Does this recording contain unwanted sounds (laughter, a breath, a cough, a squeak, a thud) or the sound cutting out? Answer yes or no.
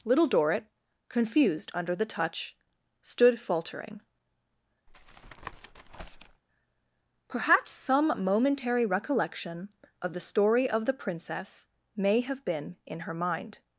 yes